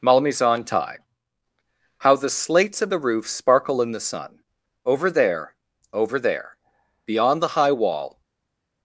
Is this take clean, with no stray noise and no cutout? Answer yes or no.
yes